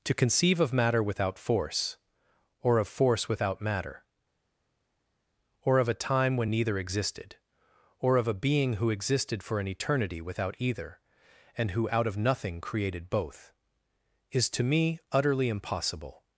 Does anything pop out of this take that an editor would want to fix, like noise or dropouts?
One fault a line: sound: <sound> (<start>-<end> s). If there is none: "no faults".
no faults